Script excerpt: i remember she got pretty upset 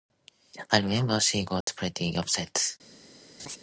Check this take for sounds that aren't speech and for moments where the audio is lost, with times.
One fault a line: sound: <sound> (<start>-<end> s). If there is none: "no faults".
sound: dropout (1.6-1.7 s)
sound: laugh (3.4-3.6 s)